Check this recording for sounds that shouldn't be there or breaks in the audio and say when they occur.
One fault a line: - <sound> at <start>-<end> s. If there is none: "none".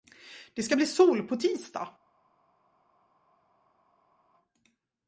none